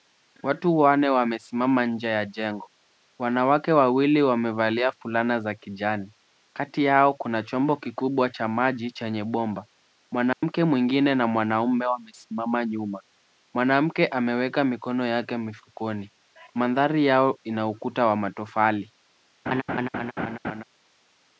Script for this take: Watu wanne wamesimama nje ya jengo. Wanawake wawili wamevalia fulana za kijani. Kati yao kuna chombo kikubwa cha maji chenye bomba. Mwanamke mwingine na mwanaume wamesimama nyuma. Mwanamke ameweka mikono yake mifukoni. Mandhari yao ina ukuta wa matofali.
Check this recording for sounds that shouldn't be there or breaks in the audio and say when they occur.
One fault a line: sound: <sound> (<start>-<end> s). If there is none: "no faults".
sound: dropout (10.3-10.4 s)
sound: laugh (19.5-20.6 s)